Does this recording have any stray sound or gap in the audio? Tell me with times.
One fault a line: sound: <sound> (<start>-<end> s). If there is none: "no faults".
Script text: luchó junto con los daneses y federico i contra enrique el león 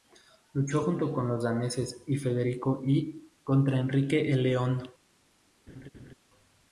sound: laugh (5.7-6.1 s)